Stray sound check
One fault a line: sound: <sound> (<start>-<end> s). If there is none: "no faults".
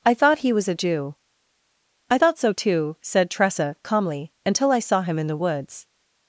no faults